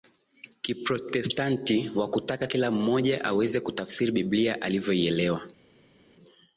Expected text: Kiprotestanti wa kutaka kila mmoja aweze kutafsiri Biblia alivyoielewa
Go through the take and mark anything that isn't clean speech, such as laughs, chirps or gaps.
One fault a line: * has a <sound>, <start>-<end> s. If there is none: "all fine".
all fine